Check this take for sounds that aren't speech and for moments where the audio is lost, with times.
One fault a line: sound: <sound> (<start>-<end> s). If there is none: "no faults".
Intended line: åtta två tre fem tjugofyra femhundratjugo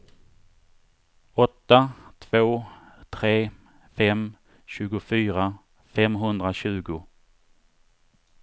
no faults